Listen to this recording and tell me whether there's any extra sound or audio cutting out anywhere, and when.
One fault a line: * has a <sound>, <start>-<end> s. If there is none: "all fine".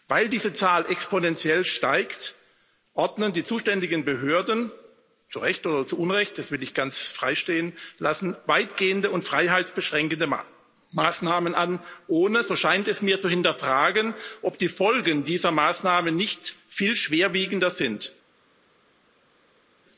all fine